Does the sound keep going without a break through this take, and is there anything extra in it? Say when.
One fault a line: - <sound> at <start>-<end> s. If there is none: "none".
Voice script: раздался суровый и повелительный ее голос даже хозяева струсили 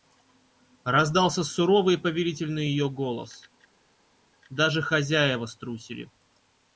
none